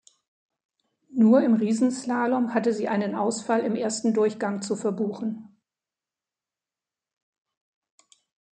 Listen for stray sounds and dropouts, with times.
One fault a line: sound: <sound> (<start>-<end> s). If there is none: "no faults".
no faults